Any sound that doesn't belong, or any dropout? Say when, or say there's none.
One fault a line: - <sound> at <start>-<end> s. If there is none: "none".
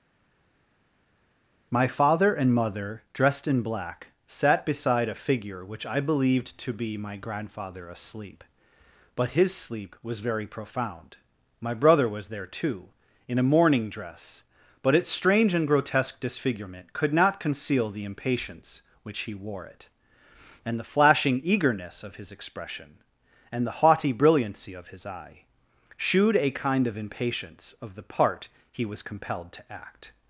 none